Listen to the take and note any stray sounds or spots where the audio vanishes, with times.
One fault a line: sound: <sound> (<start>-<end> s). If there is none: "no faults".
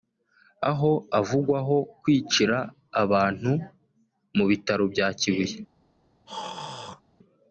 sound: throat clearing (6.3-7.0 s)